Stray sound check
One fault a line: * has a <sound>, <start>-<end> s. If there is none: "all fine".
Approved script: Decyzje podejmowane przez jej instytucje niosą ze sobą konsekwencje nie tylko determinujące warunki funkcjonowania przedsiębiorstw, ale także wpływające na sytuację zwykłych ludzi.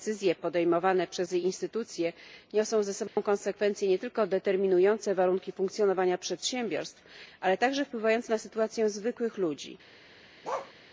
* has a dropout, 3.1-3.2 s
* has a bark, 10.4-10.7 s